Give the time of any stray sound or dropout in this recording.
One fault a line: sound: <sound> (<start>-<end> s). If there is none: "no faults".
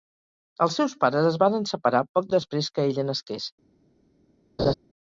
sound: laugh (4.6-4.7 s)